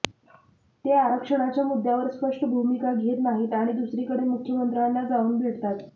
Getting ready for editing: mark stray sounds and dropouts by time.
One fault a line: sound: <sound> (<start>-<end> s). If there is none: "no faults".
no faults